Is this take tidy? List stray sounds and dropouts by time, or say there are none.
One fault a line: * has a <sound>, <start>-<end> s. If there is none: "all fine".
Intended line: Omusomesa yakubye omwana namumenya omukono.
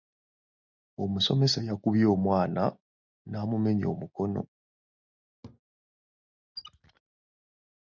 * has a laugh, 5.4-5.6 s
* has a squeak, 6.6-7.0 s